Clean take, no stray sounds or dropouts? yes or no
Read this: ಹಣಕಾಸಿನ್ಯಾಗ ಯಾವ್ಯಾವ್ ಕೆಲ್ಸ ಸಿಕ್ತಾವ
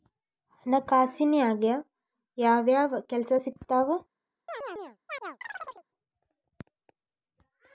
no